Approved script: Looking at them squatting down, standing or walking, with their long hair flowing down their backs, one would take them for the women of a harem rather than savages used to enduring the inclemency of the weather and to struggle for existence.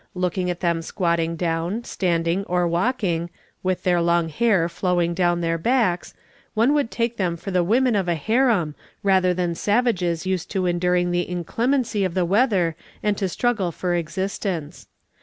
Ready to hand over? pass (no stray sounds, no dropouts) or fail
pass